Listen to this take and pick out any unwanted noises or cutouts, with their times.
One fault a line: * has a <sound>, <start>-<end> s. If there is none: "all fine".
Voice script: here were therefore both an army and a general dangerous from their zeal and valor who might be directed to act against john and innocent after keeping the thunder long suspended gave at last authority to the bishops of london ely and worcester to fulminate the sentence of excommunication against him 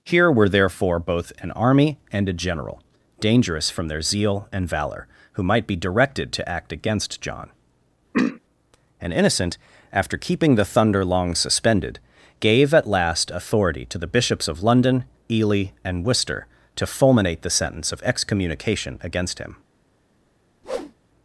* has a throat clearing, 8.1-8.4 s
* has a whoosh, 20.6-20.9 s